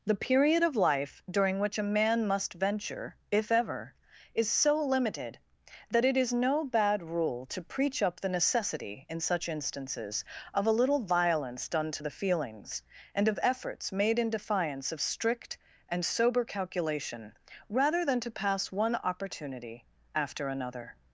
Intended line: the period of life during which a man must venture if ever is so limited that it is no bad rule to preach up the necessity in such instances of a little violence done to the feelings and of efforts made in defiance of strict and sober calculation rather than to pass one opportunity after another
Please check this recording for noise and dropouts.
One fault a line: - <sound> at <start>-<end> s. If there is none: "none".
none